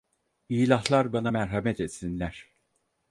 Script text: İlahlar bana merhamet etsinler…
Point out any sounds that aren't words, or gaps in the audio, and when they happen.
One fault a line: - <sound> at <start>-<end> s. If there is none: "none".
none